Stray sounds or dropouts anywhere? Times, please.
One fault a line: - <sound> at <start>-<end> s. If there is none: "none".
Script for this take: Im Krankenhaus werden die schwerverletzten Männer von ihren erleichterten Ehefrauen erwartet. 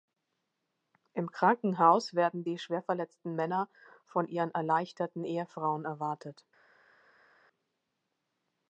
none